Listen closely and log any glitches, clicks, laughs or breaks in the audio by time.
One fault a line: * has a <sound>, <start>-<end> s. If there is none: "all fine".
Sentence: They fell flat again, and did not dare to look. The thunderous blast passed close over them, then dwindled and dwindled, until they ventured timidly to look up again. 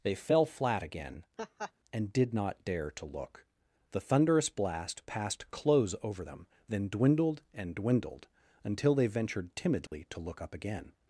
* has a laugh, 1.4-1.7 s
* has a dropout, 9.9-9.9 s